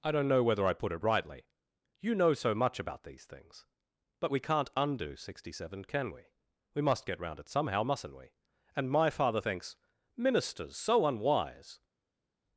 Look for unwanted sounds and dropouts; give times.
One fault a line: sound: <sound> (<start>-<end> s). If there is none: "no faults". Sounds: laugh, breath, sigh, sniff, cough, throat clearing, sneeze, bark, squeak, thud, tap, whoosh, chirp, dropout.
no faults